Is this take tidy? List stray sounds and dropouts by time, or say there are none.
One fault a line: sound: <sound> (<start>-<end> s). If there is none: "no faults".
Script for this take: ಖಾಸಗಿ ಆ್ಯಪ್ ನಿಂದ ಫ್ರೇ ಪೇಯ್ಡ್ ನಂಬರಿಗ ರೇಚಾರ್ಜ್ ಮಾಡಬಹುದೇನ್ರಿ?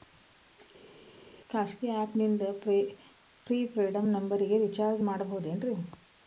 no faults